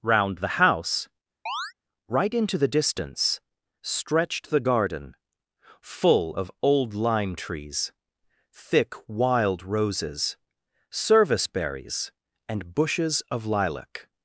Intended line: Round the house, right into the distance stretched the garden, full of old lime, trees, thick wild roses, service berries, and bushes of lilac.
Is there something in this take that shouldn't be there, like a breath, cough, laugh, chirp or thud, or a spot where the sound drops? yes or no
yes